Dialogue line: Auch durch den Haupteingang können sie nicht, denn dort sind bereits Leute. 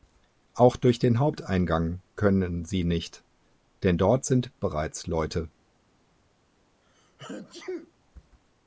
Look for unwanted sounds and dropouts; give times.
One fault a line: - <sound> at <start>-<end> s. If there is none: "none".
- sneeze at 6.8-7.9 s